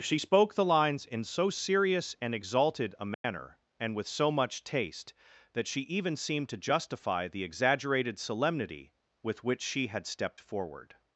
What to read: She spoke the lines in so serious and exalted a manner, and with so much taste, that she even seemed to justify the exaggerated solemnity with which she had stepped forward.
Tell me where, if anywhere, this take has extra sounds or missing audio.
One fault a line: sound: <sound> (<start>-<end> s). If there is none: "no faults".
sound: dropout (3.1-3.2 s)